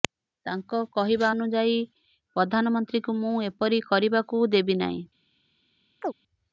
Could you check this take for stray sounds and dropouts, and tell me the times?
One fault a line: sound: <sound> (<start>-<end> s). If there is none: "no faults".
sound: chirp (6.0-6.1 s)